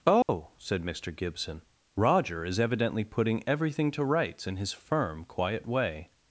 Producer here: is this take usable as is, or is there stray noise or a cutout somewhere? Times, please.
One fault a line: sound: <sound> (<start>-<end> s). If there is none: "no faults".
sound: dropout (0.2-0.3 s)